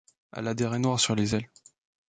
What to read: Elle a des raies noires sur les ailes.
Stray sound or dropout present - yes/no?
no